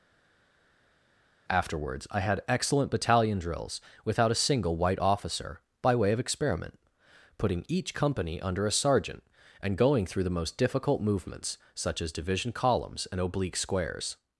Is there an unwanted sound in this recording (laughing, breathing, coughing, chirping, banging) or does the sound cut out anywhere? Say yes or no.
no